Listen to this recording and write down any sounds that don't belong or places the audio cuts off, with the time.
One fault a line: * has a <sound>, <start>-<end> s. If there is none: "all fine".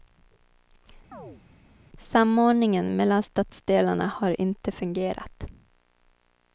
* has a chirp, 1.1-1.4 s